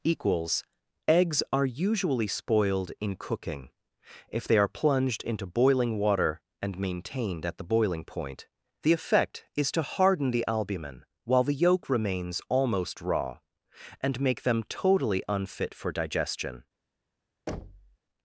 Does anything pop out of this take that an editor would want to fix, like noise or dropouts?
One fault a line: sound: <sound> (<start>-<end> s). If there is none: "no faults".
sound: thud (17.5-18.0 s)